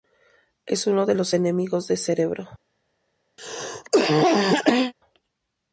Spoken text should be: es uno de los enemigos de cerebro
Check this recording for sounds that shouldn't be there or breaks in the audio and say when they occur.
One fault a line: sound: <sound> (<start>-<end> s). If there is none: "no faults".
sound: cough (3.4-4.9 s)